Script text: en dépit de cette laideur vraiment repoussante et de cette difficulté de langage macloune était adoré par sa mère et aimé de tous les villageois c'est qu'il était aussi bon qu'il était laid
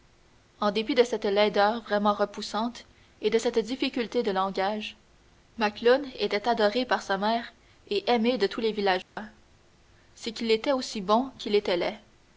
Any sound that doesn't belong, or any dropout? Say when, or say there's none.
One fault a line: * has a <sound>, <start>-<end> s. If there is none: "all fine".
* has a dropout, 9.0-9.2 s